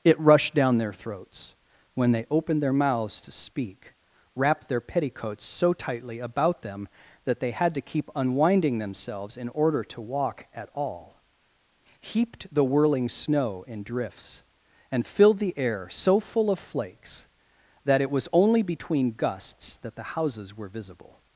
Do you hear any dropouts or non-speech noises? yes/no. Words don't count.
no